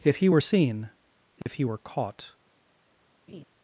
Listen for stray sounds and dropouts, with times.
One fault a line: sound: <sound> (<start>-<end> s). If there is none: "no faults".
sound: dropout (1.4-1.5 s)
sound: laugh (3.3-3.4 s)